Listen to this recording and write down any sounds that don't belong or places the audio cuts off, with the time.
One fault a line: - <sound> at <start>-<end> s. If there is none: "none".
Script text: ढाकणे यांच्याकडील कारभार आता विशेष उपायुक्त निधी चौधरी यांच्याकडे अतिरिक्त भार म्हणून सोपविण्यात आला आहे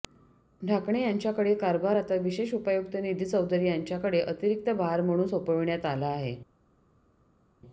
none